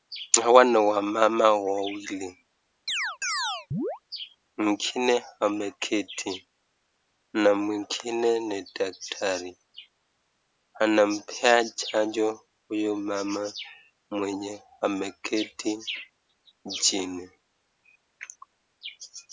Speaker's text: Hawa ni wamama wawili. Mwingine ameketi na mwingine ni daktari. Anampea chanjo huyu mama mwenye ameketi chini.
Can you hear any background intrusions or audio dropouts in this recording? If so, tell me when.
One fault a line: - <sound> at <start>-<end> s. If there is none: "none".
- chirp at 2.9-4.0 s